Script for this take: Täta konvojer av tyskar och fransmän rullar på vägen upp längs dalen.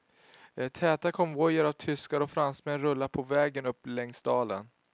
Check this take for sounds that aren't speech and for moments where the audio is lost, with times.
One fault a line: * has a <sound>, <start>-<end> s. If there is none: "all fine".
all fine